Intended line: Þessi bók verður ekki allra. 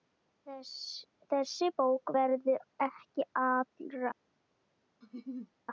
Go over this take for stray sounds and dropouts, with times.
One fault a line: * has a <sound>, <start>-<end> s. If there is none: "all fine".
* has a laugh, 5.0-5.5 s